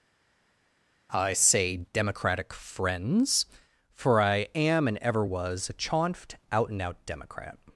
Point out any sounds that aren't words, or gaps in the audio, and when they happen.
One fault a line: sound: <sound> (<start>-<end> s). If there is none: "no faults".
no faults